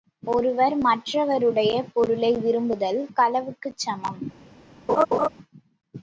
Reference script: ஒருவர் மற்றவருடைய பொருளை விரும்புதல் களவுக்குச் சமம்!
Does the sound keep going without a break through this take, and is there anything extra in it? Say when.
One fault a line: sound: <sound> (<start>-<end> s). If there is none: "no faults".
sound: laugh (4.9-5.3 s)